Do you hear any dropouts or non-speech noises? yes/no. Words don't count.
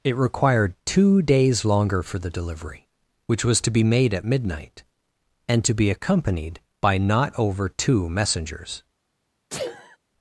yes